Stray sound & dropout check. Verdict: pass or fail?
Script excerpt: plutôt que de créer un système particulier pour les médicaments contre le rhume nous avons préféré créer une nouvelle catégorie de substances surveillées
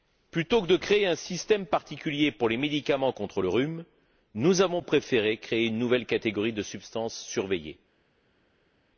pass